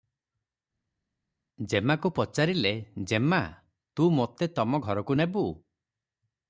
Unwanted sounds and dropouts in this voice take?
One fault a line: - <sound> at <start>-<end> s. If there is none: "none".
none